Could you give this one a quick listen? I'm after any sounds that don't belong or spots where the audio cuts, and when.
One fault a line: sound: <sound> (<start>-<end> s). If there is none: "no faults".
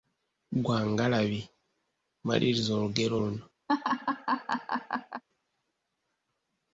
sound: laugh (3.7-5.2 s)